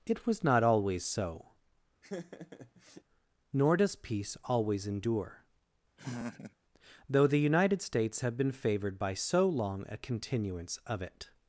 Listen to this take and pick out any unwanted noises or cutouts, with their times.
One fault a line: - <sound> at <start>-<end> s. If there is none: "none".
- laugh at 2.0-3.0 s
- laugh at 6.0-6.6 s